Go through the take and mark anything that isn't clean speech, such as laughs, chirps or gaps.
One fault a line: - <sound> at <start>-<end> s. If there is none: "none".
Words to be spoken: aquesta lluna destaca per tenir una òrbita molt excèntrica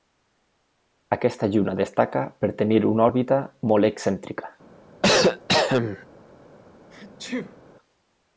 - cough at 5.0-6.1 s
- sneeze at 6.9-7.6 s